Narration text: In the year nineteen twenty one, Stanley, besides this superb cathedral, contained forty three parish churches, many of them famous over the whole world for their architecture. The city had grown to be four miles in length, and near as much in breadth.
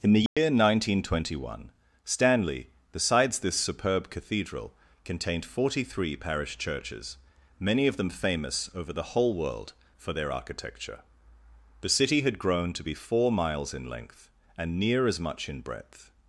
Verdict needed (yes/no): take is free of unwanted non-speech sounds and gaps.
no